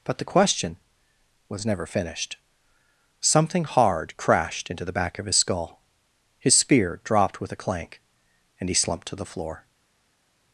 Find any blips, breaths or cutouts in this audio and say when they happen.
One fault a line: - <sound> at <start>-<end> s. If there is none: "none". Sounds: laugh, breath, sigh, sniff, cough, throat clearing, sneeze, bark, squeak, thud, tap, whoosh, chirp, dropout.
none